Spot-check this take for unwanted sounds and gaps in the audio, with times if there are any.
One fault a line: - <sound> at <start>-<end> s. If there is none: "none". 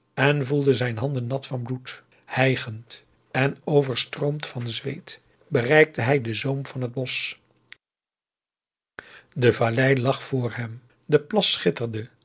none